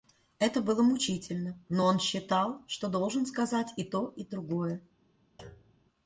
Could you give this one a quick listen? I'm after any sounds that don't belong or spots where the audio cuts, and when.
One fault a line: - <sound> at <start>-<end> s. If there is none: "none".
- thud at 5.4-5.9 s